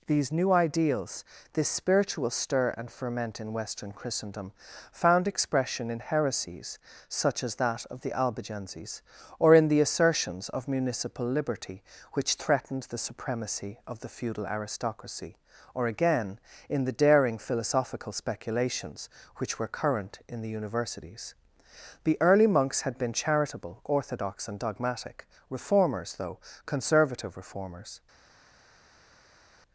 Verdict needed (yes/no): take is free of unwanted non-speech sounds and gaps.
yes